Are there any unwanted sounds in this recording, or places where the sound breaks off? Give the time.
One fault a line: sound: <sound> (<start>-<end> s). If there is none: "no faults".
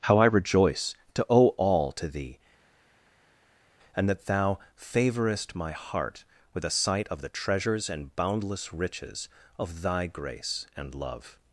no faults